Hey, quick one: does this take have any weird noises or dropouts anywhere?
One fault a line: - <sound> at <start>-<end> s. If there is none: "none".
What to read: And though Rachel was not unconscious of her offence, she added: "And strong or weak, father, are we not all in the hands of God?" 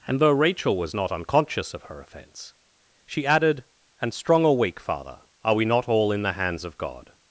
none